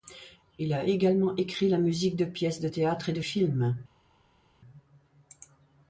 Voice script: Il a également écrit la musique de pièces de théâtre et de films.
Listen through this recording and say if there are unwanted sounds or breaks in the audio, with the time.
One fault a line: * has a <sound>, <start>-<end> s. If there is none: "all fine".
all fine